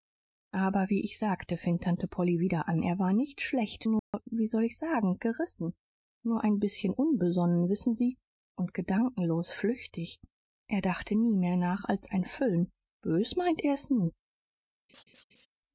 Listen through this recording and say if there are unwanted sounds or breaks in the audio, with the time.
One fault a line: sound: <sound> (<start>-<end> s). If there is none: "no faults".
sound: dropout (4.0-4.1 s)
sound: laugh (14.9-15.5 s)